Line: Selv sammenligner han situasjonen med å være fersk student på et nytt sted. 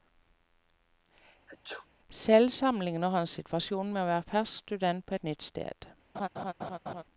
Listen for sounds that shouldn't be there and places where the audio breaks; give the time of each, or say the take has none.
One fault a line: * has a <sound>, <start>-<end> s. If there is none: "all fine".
* has a sneeze, 1.5-1.9 s
* has a laugh, 6.1-7.0 s